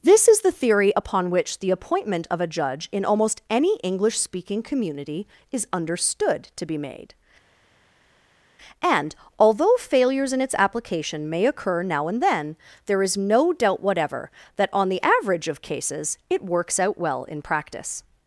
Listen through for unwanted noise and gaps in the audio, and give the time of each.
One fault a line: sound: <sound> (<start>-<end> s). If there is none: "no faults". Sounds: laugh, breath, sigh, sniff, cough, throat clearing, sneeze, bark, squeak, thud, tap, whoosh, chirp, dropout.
no faults